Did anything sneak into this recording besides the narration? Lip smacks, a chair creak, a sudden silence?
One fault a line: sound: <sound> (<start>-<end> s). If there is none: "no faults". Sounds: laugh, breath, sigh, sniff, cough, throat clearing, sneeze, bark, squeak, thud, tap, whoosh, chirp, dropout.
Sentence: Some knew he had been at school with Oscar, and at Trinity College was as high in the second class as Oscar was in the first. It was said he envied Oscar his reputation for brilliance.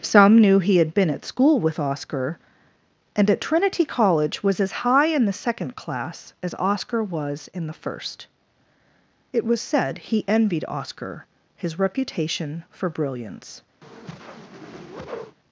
sound: whoosh (13.8-15.4 s)